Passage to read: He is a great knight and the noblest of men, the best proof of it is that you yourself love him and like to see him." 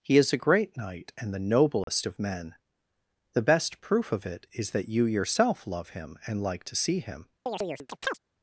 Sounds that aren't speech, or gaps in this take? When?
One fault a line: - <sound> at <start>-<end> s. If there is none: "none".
- dropout at 1.8-1.9 s
- chirp at 7.5-8.2 s